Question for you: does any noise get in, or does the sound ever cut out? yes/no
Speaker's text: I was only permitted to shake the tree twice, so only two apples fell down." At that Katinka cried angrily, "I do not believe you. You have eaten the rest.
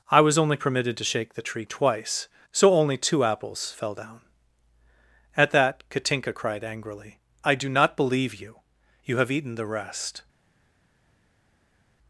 no